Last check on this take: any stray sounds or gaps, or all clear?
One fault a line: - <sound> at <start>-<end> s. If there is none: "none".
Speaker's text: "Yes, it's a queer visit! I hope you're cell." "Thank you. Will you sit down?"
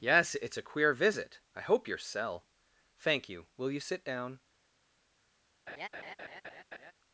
- laugh at 5.7-6.9 s